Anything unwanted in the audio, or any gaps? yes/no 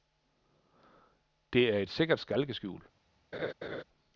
yes